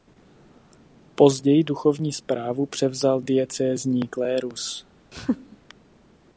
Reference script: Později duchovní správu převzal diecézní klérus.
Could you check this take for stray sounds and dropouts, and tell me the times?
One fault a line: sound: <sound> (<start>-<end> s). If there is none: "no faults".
sound: laugh (5.1-5.6 s)